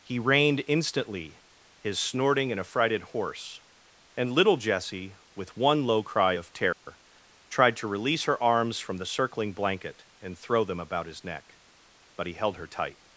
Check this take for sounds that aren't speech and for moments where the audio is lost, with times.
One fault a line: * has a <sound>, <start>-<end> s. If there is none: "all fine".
* has a dropout, 6.7-6.9 s